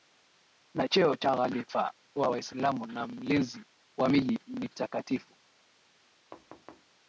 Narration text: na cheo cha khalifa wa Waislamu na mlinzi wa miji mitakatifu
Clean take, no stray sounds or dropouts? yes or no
no